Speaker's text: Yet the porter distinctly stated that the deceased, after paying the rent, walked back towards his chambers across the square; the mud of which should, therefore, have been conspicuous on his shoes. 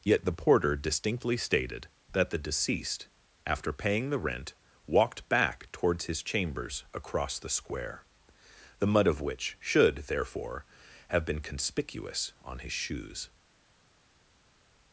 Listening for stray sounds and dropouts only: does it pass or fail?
pass